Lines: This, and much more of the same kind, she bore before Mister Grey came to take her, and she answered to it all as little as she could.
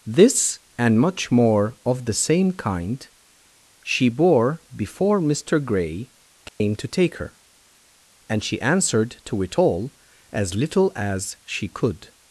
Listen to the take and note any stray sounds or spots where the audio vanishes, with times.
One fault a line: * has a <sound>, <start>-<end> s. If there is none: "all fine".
* has a dropout, 6.5-6.6 s